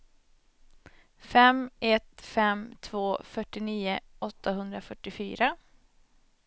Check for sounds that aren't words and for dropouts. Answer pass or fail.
pass